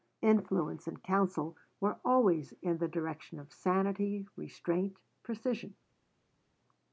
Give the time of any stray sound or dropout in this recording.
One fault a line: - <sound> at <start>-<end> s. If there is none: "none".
none